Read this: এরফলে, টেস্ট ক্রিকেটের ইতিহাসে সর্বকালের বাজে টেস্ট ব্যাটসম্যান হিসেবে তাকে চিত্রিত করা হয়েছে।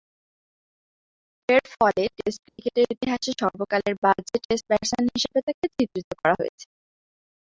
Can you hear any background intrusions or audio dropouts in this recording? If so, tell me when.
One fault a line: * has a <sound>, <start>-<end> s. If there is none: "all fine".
* has a dropout, 2.5-2.6 s